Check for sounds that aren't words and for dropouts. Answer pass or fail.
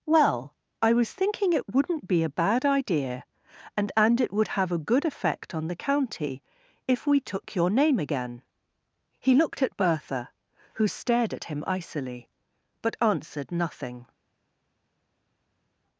pass